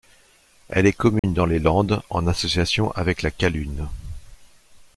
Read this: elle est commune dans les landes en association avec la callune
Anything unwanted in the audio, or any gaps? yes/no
yes